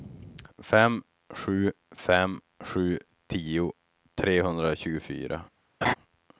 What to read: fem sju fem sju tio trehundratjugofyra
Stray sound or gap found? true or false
true